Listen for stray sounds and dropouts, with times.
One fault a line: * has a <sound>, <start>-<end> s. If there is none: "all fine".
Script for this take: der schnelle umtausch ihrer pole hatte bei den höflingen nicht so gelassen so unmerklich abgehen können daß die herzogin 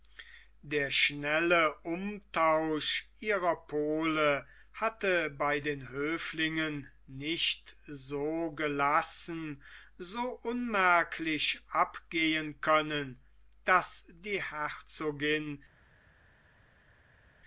all fine